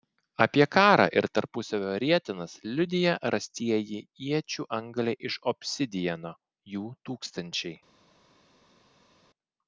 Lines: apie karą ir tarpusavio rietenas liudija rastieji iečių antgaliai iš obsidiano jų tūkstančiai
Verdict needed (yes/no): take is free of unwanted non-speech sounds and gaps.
yes